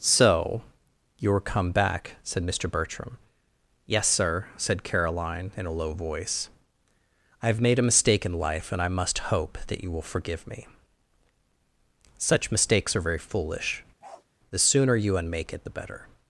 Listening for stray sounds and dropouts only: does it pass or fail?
fail